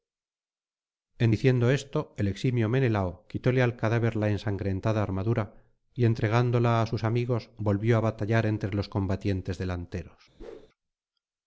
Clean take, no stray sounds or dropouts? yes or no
no